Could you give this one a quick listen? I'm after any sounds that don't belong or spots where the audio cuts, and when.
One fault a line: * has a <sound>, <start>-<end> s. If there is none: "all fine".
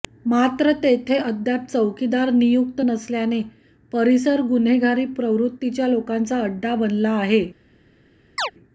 * has a chirp, 8.4-8.5 s